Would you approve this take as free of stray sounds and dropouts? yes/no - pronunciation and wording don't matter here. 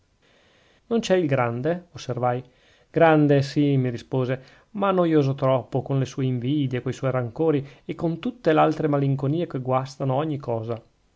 yes